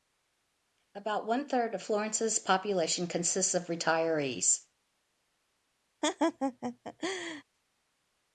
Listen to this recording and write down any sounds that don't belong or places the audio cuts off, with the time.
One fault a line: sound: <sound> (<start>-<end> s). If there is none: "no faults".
sound: laugh (6.0-7.4 s)